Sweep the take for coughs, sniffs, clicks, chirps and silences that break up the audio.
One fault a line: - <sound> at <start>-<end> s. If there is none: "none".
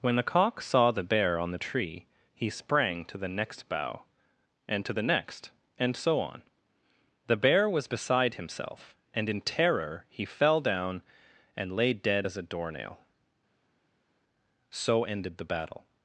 none